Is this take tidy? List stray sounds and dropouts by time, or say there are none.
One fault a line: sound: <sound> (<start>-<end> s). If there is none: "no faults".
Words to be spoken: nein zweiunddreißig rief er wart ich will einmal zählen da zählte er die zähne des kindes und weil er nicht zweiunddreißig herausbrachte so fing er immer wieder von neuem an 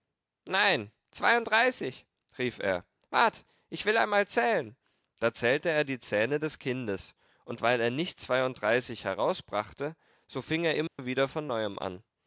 sound: dropout (10.9-11.0 s)